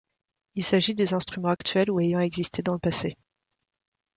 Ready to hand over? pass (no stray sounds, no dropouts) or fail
fail